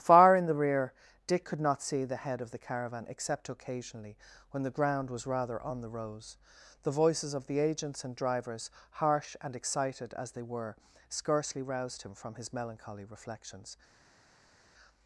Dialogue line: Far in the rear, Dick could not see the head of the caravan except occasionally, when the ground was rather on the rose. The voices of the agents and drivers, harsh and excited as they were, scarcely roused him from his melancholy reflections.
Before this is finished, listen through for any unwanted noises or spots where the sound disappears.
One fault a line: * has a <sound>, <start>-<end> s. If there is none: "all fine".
all fine